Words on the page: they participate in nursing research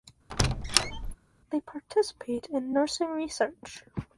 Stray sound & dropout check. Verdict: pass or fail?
fail